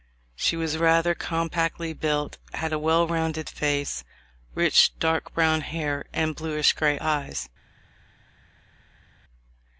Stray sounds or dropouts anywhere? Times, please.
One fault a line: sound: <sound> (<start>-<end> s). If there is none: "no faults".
no faults